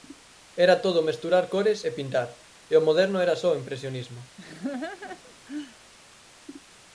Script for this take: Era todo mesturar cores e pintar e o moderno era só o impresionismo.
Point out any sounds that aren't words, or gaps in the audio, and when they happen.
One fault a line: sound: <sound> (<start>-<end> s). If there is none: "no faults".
sound: laugh (4.4-5.8 s)